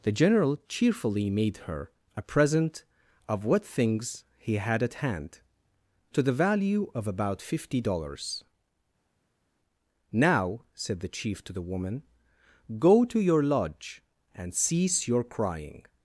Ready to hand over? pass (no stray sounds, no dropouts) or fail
pass